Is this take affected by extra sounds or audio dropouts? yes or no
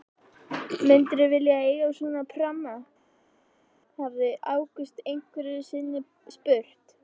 no